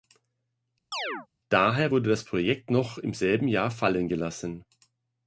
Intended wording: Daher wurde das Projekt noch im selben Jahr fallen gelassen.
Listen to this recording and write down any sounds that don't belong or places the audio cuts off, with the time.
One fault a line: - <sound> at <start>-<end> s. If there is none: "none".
- chirp at 0.9-1.3 s